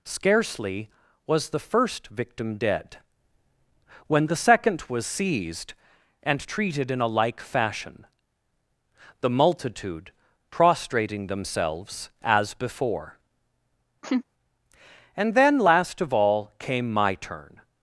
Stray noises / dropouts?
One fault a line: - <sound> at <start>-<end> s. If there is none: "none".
- laugh at 14.0-14.2 s